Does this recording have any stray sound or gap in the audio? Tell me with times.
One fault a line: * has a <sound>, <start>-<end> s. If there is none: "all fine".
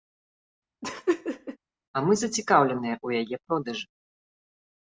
* has a laugh, 0.8-1.6 s